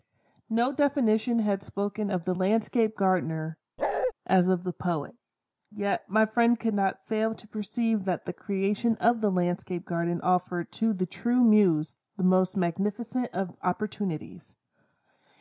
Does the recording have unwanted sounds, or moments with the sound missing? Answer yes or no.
yes